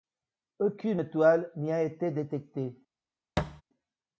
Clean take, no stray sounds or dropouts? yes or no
no